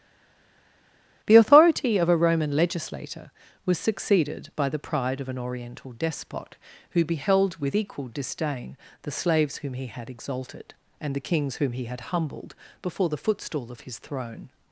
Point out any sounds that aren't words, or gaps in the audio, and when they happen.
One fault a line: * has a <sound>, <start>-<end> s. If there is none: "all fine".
all fine